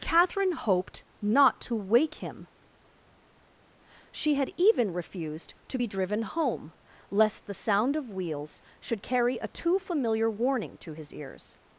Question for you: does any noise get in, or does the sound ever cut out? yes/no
no